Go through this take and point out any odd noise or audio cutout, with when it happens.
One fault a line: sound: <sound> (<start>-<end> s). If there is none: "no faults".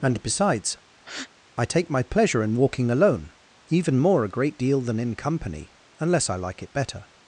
sound: breath (1.0-1.3 s)